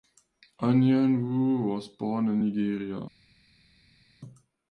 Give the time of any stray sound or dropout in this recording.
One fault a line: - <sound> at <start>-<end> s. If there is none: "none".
none